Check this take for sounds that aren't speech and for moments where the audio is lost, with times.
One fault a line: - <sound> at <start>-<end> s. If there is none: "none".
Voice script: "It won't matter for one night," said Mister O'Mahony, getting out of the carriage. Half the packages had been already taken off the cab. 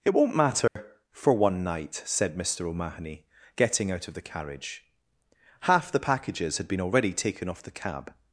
- dropout at 0.7-0.8 s